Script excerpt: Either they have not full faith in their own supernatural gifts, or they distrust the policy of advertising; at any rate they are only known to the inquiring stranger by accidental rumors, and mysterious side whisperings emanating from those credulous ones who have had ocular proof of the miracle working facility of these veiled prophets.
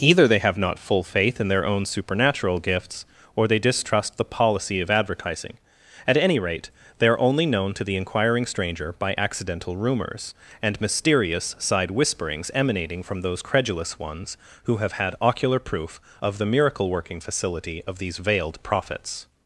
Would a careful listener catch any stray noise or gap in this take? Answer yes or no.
no